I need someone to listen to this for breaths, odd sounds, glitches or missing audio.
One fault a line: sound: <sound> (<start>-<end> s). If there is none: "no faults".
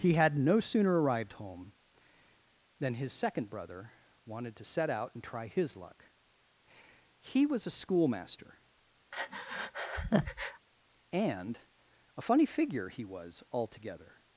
sound: breath (9.1-10.7 s)